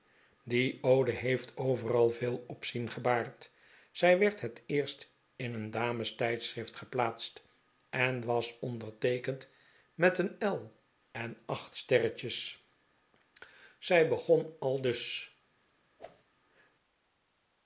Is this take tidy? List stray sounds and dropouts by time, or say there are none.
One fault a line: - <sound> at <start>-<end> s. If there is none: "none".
- whoosh at 16.0-16.2 s